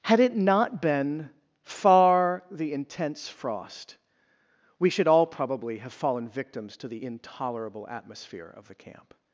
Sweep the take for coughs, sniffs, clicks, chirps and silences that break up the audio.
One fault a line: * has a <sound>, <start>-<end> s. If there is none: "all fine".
all fine